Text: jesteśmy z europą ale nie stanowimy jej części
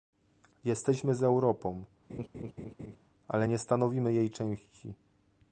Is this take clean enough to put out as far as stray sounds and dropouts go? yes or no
no